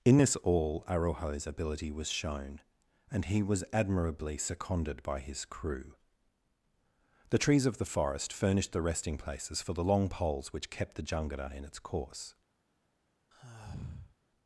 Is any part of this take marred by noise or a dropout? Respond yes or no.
yes